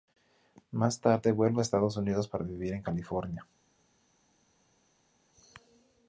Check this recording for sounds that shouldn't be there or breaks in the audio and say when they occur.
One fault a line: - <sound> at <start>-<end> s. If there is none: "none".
none